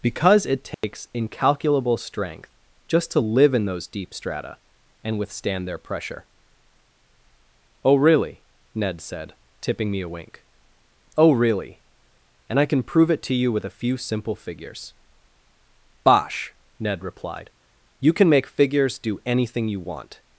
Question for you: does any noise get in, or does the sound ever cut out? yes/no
yes